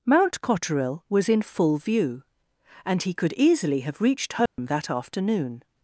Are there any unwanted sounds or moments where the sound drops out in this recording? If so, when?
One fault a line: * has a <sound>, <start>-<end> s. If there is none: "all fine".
* has a dropout, 4.5-4.6 s